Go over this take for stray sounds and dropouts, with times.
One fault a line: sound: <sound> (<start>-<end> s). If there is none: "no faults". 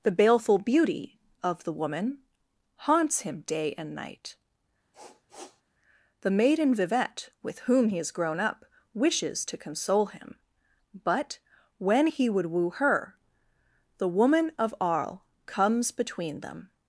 sound: sniff (4.9-5.6 s)